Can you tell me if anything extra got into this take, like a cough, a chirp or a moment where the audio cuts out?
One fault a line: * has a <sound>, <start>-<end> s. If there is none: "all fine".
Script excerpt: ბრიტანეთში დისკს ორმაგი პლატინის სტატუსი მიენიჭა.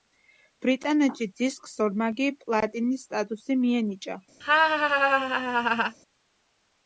* has a laugh, 4.4-6.0 s